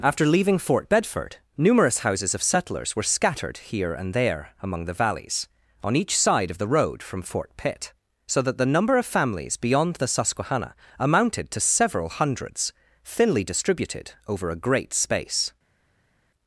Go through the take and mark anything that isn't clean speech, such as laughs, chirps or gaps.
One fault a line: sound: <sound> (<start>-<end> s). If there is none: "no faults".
no faults